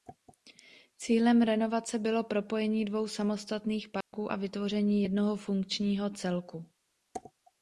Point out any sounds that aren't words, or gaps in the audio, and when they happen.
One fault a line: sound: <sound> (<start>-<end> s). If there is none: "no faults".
sound: dropout (4.0-4.1 s)